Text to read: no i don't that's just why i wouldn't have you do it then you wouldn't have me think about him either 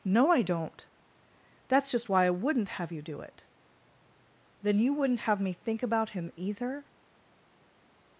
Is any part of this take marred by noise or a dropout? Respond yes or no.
no